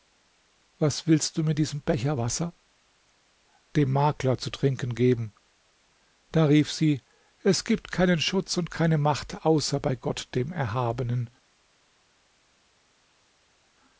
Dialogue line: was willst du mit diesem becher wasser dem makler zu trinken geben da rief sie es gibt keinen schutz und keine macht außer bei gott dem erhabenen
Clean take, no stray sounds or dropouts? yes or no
yes